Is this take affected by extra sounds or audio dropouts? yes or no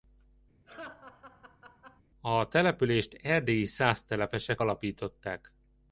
yes